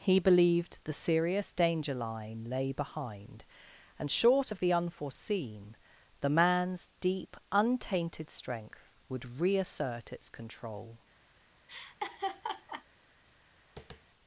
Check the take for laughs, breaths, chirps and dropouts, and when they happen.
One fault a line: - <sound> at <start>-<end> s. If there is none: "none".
- laugh at 11.7-12.8 s
- tap at 13.8-14.0 s